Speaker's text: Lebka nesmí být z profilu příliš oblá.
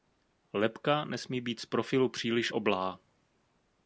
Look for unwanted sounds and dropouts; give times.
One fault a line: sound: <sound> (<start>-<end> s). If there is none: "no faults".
no faults